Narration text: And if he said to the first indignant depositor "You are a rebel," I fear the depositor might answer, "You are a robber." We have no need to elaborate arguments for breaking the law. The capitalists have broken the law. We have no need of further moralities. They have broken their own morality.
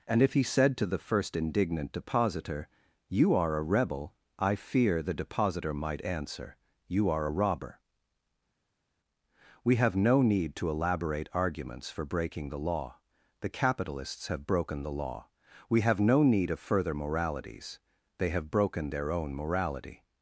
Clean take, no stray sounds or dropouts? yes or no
yes